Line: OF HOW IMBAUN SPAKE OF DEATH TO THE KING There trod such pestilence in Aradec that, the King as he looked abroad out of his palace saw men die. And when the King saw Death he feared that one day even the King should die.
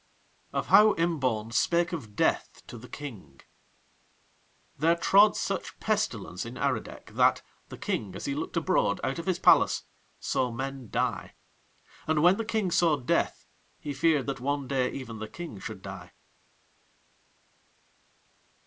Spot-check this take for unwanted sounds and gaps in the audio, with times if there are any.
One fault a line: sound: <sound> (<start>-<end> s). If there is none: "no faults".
no faults